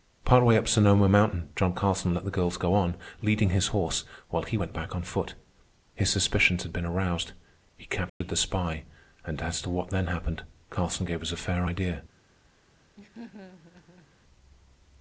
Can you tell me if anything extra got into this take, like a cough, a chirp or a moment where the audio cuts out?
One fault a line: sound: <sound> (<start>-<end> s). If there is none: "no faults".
sound: dropout (8.1-8.2 s)
sound: laugh (13.0-14.1 s)